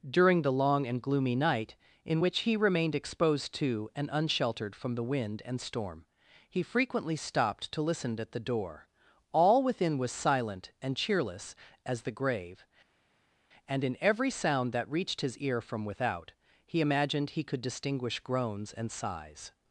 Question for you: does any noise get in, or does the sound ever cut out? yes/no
no